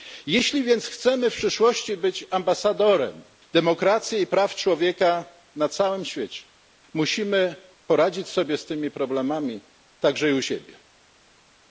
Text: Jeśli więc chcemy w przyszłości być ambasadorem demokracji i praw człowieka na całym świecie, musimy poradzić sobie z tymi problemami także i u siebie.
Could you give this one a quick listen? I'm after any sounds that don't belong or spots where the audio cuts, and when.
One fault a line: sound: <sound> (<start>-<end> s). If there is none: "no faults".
no faults